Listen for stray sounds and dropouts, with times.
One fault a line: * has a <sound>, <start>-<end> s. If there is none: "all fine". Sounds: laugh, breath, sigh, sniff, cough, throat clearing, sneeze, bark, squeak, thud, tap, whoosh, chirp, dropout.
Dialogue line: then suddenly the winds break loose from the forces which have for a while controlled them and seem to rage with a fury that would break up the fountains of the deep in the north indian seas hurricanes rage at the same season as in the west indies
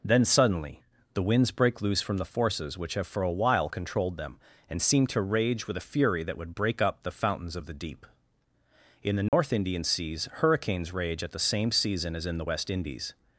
* has a dropout, 9.3-9.3 s